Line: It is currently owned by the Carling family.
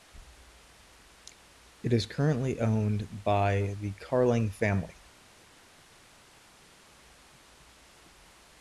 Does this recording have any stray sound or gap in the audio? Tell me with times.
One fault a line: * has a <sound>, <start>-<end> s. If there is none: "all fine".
all fine